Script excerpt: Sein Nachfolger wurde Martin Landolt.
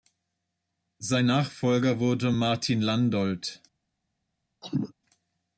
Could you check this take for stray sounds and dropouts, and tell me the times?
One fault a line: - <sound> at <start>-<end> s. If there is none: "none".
- cough at 4.6-4.9 s